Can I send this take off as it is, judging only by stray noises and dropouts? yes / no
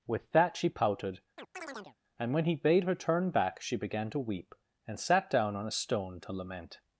no